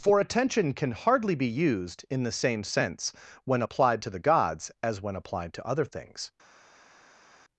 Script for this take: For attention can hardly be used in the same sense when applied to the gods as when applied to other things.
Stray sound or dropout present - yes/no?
no